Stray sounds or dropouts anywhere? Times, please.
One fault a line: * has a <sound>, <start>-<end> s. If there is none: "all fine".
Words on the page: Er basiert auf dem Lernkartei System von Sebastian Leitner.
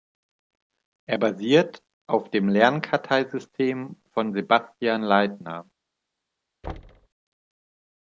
* has a thud, 6.6-7.1 s